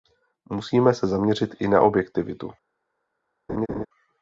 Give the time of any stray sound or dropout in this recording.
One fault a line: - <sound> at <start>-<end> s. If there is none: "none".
- laugh at 3.5-3.9 s